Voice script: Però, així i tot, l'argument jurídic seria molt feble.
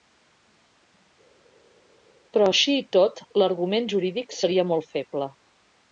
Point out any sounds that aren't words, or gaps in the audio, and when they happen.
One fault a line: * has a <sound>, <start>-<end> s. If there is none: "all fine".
all fine